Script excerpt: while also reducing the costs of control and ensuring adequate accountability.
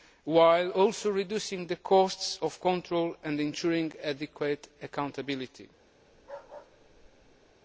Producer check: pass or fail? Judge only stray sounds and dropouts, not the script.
fail